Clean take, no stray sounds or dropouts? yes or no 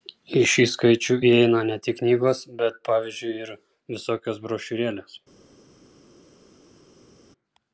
yes